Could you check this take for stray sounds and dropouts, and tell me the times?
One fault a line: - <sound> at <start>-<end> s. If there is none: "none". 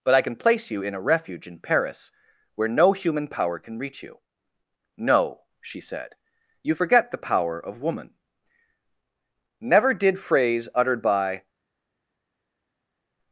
none